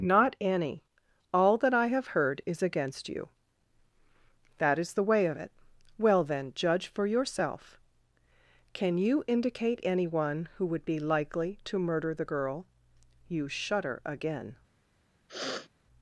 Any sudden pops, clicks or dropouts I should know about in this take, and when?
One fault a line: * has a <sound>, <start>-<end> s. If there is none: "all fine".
* has a sniff, 15.3-15.7 s